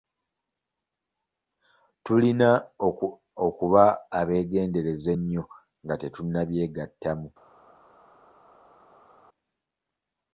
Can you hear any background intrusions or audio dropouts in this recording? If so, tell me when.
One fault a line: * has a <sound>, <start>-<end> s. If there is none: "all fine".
all fine